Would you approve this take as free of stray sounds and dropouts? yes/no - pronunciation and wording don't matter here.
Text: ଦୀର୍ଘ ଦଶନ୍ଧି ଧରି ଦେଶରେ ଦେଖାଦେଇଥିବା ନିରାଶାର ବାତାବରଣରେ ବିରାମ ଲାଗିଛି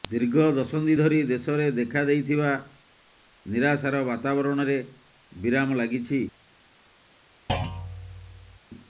no